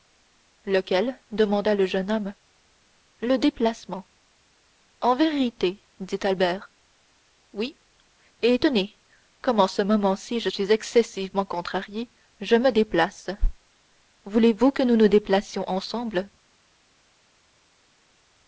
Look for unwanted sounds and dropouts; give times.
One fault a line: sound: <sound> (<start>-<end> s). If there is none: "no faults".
no faults